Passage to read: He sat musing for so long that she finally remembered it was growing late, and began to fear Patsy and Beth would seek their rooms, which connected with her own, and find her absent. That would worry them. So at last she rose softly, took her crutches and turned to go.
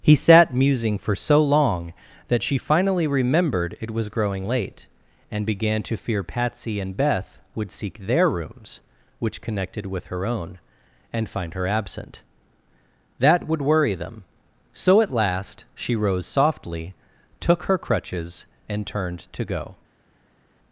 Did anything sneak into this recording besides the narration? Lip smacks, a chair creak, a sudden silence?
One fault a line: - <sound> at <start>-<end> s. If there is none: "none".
none